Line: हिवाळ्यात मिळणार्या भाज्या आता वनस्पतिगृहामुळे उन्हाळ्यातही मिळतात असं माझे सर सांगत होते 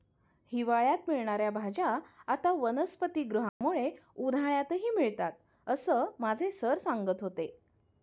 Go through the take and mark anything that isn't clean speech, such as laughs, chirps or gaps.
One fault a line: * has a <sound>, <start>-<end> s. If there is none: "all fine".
* has a dropout, 3.5-3.6 s